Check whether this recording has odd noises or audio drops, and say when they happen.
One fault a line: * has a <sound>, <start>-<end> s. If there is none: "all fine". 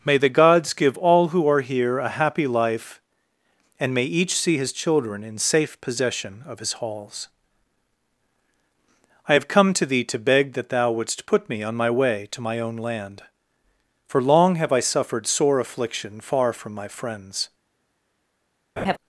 * has a laugh, 18.8-19.0 s